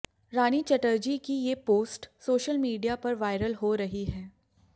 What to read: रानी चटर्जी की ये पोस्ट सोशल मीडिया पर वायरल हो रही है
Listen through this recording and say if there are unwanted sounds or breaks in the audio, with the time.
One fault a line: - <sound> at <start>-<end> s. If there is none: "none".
none